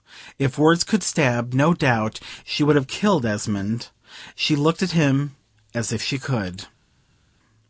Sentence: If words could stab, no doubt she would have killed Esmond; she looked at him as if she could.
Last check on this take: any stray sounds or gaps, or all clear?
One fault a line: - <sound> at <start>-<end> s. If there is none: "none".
none